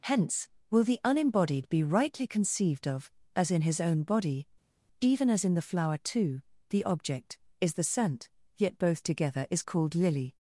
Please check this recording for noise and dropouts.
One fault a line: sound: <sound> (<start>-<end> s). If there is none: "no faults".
no faults